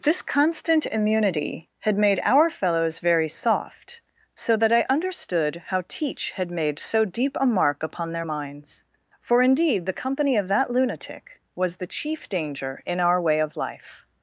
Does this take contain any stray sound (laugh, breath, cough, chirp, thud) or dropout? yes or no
no